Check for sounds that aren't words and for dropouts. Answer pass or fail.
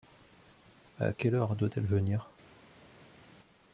pass